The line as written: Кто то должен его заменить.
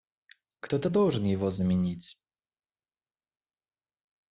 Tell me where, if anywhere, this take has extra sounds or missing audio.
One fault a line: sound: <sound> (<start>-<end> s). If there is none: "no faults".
no faults